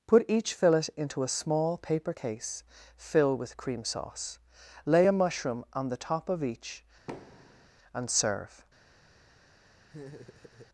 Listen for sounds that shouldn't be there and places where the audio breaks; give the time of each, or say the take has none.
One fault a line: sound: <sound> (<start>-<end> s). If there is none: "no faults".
sound: thud (7.1-7.7 s)
sound: laugh (9.9-10.7 s)